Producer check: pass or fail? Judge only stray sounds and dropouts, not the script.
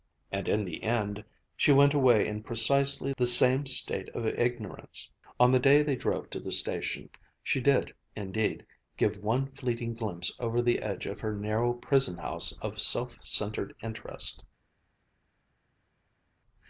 pass